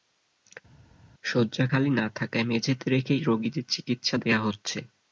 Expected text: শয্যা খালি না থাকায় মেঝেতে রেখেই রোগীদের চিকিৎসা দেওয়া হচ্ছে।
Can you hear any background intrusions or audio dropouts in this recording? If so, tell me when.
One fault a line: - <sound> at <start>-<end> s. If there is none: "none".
none